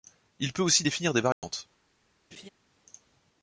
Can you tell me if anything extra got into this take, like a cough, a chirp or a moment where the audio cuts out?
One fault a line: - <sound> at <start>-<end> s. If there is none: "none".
- dropout at 1.3-1.4 s
- laugh at 2.3-2.5 s